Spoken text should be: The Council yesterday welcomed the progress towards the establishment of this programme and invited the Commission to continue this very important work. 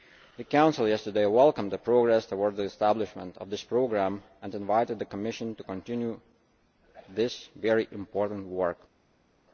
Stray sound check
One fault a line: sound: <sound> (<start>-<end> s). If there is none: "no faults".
no faults